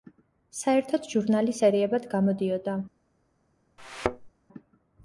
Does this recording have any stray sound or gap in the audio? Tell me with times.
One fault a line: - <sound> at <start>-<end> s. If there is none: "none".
- thud at 3.8-4.3 s